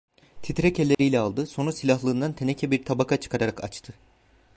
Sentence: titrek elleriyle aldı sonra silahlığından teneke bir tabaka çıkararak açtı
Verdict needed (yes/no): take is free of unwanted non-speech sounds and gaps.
no